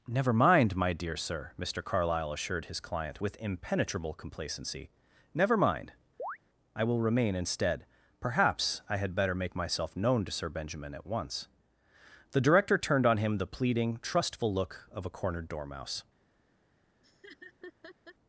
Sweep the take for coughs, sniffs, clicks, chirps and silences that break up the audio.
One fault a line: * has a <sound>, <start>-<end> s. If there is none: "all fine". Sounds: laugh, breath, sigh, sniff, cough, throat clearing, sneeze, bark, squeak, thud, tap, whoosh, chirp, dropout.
* has a chirp, 6.2-6.4 s
* has a laugh, 17.0-18.2 s